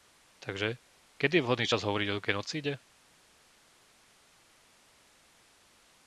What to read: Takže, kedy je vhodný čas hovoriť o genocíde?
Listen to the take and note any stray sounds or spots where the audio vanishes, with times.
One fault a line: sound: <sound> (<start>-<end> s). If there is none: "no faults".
no faults